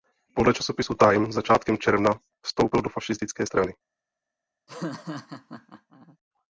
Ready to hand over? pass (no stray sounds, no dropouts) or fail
fail